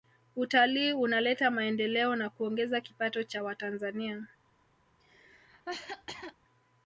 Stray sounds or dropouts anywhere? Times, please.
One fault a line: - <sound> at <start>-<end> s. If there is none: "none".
- cough at 5.0-6.3 s